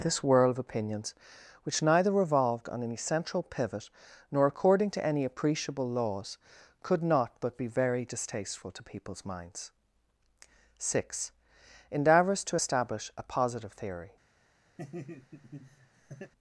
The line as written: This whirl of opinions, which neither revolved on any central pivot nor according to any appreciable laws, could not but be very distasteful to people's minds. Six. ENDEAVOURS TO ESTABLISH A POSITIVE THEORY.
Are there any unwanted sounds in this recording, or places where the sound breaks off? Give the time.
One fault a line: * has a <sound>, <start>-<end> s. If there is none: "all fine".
* has a laugh, 14.8-16.3 s